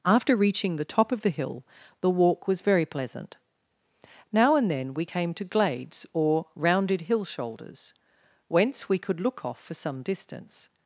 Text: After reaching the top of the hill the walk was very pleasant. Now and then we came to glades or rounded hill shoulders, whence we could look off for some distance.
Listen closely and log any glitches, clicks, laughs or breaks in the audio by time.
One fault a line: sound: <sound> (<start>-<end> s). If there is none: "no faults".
no faults